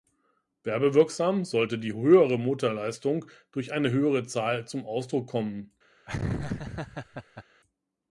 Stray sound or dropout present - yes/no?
yes